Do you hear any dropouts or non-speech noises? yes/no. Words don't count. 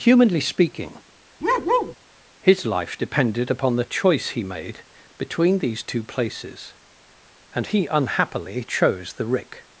yes